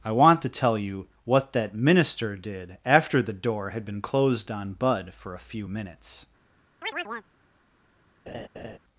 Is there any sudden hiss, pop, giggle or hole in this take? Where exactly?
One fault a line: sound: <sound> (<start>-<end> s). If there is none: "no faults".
sound: chirp (6.8-7.3 s)
sound: laugh (8.3-8.8 s)